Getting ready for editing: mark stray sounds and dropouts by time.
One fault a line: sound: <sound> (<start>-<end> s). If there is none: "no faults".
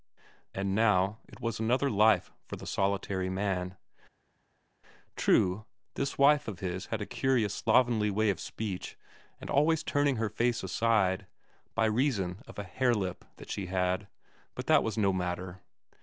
no faults